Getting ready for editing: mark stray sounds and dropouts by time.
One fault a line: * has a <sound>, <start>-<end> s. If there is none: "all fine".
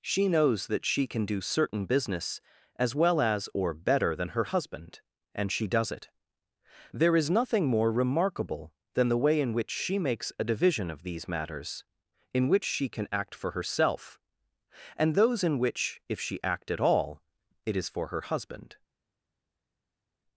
all fine